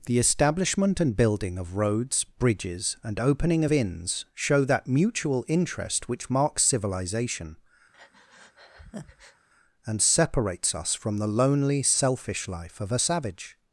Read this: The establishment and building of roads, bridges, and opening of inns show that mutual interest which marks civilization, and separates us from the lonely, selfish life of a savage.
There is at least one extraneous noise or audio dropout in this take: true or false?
true